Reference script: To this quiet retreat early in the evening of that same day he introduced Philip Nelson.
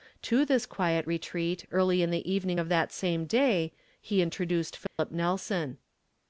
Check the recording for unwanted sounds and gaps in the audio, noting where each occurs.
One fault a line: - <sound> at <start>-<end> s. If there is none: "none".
- dropout at 4.9-5.0 s